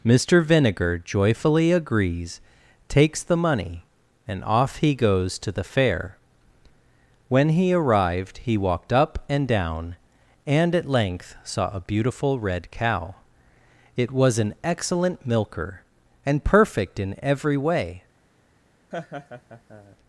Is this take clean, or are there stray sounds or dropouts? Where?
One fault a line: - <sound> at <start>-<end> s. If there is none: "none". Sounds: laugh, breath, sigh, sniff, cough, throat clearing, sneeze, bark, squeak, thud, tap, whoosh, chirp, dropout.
- laugh at 18.9-20.0 s